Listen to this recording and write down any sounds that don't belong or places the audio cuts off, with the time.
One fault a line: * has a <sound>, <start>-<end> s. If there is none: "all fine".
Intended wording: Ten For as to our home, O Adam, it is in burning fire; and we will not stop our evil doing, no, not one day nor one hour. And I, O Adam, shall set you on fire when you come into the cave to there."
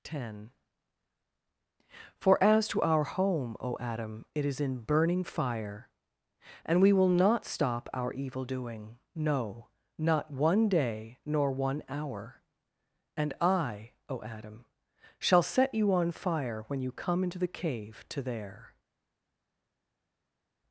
all fine